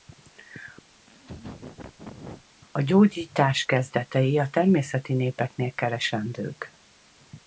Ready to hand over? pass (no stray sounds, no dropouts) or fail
fail